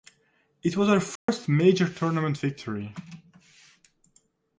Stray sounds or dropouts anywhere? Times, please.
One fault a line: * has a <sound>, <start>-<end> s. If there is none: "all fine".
* has a dropout, 1.2-1.3 s